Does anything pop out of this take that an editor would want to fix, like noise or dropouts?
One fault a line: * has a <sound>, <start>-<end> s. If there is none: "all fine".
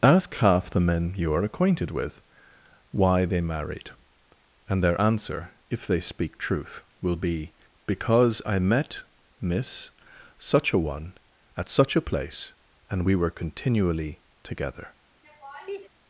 * has a laugh, 15.2-15.9 s